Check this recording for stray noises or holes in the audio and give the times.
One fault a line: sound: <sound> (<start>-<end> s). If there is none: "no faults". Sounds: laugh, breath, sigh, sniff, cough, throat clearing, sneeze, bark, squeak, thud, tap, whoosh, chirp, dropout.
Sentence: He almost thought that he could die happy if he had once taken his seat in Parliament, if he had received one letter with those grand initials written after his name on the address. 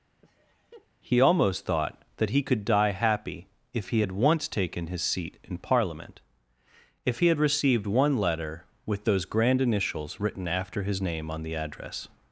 sound: laugh (0.2-0.9 s)